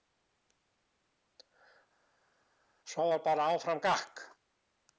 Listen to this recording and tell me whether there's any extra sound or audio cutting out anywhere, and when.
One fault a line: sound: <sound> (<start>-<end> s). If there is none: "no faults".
no faults